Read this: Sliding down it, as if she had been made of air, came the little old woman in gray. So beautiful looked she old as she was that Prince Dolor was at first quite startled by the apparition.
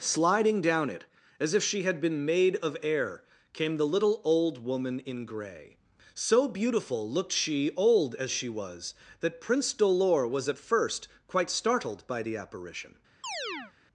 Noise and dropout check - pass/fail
fail